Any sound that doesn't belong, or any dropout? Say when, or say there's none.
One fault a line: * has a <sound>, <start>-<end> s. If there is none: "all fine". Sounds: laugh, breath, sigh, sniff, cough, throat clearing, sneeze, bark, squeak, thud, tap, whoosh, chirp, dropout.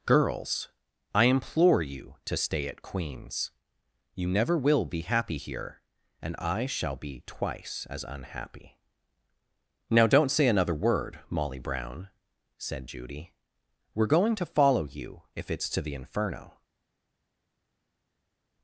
all fine